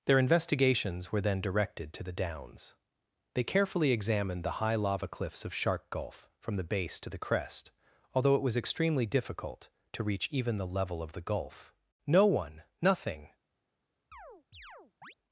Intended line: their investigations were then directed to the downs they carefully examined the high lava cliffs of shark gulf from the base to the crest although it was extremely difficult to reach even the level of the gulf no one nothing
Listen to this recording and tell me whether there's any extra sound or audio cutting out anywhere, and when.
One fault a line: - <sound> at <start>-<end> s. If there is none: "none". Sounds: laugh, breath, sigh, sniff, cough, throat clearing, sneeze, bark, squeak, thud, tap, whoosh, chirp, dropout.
- chirp at 14.1-15.1 s